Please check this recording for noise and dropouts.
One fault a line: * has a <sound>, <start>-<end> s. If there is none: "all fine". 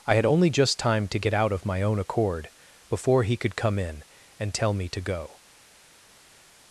all fine